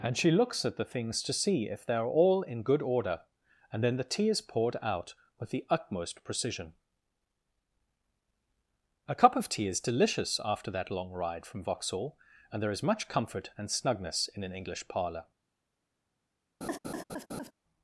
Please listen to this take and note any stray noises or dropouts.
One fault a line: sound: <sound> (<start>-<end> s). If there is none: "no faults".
sound: laugh (16.6-17.5 s)